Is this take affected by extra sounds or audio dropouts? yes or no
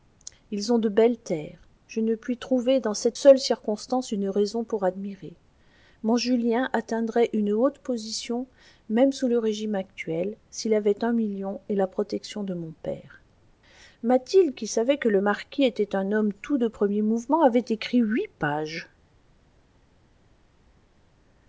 no